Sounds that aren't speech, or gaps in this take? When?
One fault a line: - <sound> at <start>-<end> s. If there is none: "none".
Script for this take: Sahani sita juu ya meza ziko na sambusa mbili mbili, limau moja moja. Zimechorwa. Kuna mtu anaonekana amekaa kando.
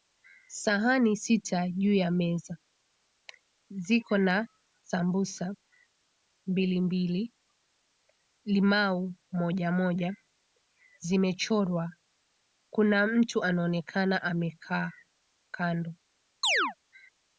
- chirp at 16.4-16.7 s